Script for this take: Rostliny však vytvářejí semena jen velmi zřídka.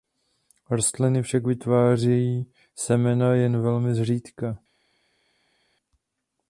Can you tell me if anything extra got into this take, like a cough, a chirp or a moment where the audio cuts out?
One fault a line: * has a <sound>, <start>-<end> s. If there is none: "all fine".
all fine